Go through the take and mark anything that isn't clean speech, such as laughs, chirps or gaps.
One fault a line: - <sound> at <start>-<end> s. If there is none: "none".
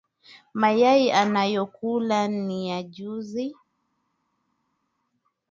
none